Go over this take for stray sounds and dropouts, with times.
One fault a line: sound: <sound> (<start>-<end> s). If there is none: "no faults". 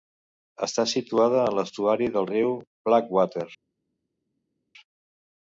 no faults